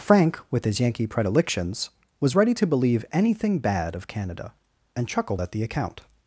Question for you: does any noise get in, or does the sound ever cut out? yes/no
no